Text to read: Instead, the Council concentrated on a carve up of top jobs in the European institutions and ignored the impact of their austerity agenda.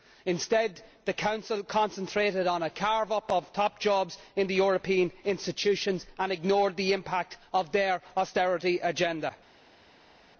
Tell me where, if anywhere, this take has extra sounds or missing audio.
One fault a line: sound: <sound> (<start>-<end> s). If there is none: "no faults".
no faults